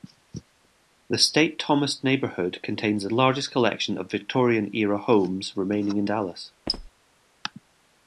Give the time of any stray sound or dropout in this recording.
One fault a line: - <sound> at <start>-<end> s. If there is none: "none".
- squeak at 6.7-6.9 s